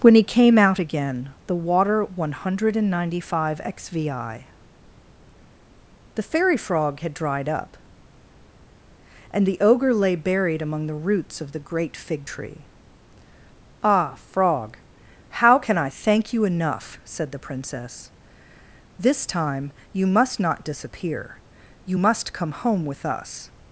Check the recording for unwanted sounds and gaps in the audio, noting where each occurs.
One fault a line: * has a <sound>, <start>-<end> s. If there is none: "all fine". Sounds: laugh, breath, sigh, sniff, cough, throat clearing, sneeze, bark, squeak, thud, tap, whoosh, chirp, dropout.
all fine